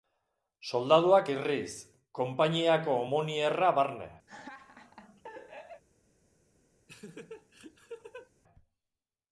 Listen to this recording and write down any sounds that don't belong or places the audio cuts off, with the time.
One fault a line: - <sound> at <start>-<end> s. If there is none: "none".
- laugh at 4.3-5.8 s
- laugh at 6.9-8.3 s